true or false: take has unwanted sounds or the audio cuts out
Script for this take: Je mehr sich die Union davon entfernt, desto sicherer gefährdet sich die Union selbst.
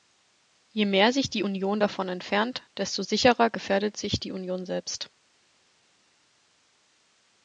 false